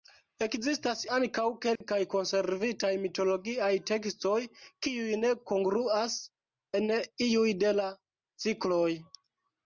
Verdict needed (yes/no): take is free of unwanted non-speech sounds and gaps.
no